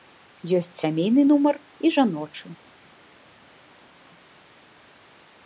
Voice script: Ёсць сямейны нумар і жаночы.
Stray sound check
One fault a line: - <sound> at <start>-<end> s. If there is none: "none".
none